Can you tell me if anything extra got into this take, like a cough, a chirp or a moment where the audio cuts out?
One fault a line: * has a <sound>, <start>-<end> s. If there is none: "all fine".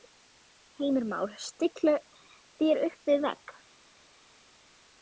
all fine